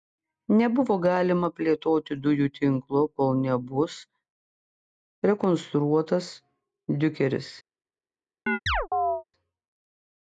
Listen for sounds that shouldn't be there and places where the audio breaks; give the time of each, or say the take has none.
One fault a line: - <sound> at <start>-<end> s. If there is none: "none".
- chirp at 8.5-9.2 s